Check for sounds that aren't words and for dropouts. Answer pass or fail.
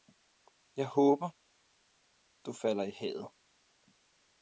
pass